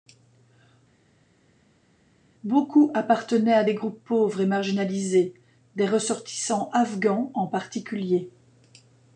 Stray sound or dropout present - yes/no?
no